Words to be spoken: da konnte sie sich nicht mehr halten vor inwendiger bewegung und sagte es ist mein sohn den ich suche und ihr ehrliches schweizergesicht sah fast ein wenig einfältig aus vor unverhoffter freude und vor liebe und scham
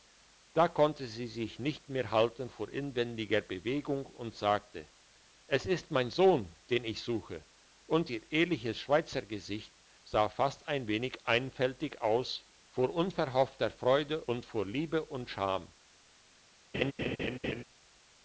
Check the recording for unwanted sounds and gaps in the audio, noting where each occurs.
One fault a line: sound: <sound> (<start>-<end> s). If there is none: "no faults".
sound: laugh (16.7-17.6 s)